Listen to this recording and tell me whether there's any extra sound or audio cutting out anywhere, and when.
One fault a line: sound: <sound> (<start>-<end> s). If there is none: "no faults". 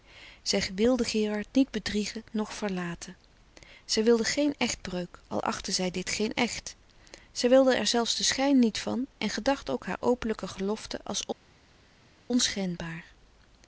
no faults